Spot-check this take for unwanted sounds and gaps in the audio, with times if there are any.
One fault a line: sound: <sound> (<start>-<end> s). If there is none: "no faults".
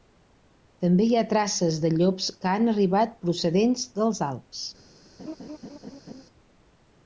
sound: laugh (5.2-6.2 s)